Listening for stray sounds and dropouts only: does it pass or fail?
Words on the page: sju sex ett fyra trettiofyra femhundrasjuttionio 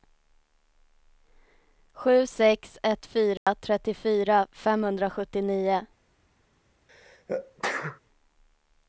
fail